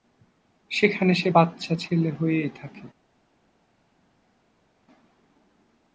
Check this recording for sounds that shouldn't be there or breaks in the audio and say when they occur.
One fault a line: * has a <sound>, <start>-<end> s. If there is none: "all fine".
all fine